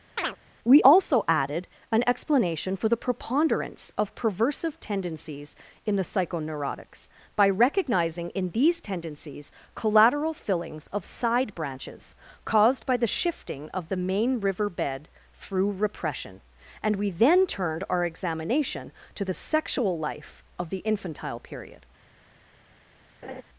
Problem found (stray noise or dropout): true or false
true